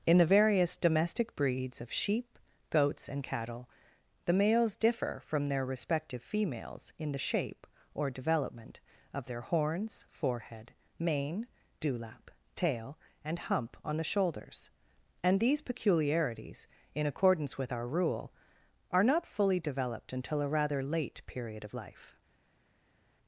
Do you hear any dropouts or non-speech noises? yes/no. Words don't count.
no